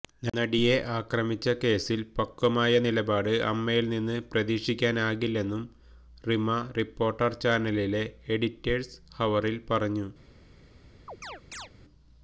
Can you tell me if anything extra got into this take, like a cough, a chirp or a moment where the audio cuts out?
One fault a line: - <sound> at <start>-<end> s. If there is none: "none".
- chirp at 11.1-11.7 s